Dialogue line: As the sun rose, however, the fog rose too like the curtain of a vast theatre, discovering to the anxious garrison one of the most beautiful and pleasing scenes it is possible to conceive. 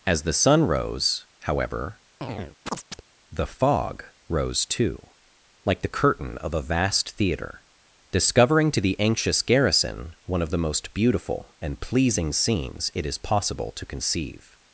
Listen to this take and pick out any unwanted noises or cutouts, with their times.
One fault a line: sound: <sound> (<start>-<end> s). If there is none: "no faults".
sound: chirp (2.2-3.0 s)